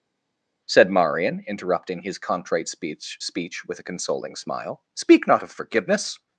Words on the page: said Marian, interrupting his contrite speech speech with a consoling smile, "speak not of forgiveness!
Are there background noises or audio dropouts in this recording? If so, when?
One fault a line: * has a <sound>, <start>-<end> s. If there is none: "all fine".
all fine